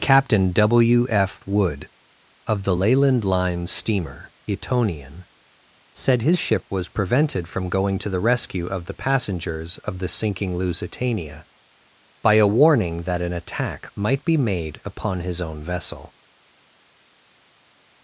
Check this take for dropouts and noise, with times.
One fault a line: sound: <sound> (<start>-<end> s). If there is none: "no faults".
no faults